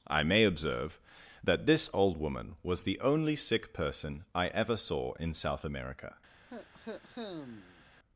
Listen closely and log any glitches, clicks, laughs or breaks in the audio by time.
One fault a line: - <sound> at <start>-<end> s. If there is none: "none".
- cough at 6.5-7.8 s